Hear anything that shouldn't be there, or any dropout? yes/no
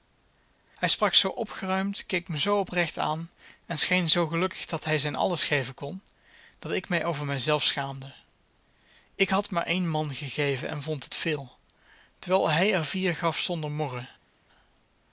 no